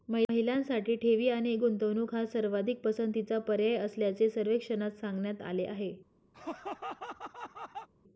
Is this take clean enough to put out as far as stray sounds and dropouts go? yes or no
no